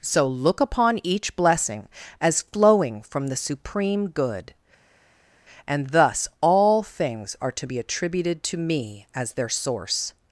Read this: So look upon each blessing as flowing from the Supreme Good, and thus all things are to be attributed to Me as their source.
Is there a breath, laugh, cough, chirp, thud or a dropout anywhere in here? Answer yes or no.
no